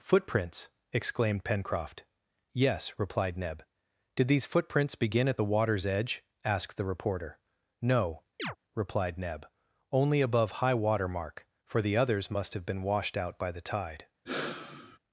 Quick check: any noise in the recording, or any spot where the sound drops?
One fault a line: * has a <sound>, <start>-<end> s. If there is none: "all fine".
* has a chirp, 8.4-8.6 s
* has a sigh, 14.3-15.0 s